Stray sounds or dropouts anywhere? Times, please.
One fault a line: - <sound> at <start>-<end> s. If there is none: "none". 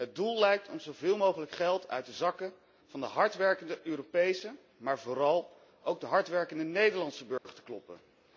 - dropout at 7.4-7.5 s